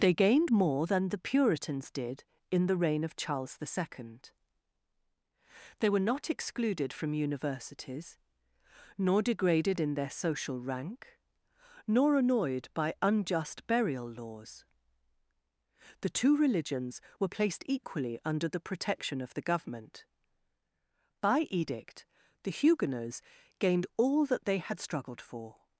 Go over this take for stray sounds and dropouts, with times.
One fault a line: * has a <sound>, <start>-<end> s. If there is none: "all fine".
all fine